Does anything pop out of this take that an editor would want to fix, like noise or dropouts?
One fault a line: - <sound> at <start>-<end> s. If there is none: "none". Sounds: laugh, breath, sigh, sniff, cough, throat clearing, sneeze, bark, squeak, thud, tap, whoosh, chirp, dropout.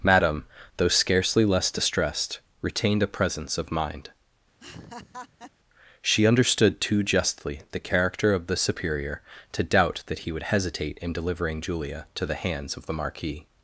- laugh at 4.6-5.5 s